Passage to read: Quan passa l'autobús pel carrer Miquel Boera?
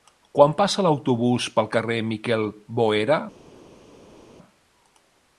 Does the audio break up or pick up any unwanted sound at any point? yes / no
no